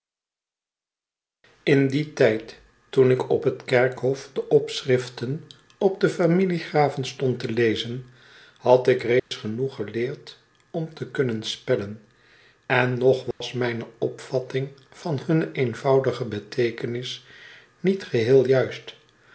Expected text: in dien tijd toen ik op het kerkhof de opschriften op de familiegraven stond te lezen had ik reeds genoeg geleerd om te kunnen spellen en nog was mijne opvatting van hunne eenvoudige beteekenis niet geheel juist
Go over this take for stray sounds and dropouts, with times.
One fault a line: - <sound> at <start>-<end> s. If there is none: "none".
- dropout at 9.2-9.3 s
- dropout at 13.3-13.4 s